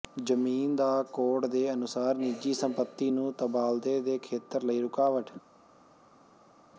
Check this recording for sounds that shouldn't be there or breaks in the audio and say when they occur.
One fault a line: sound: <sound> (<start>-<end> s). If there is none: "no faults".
no faults